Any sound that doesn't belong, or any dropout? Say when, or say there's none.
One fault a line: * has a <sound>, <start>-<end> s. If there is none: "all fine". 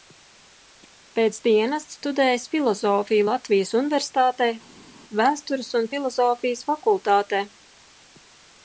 all fine